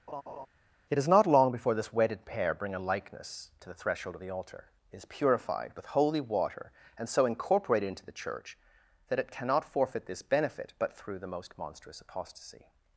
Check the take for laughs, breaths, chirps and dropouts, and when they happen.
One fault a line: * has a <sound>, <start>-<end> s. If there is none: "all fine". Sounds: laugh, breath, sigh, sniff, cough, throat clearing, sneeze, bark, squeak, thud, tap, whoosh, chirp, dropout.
* has a laugh, 0.1-0.5 s